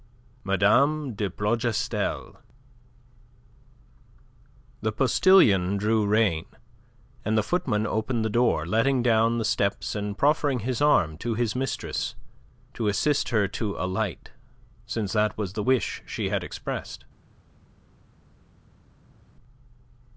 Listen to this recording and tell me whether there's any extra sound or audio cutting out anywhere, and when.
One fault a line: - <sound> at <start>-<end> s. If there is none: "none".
none